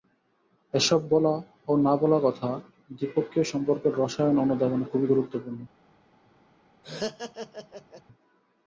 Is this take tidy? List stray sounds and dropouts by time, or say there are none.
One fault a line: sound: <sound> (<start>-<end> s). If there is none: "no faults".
sound: laugh (6.8-8.0 s)